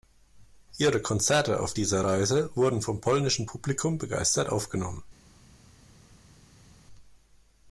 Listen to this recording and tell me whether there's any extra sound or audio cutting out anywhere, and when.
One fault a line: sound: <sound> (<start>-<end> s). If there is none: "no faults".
no faults